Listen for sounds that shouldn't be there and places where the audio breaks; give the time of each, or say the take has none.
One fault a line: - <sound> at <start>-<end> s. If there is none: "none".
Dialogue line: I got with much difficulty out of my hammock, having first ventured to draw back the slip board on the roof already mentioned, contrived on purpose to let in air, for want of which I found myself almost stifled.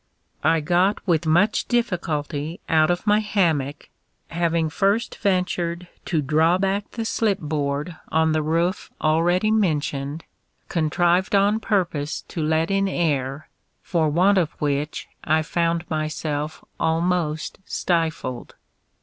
none